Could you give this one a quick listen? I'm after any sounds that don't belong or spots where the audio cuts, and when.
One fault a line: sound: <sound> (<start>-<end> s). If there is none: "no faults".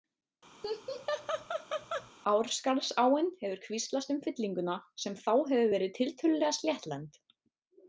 sound: laugh (0.6-2.1 s)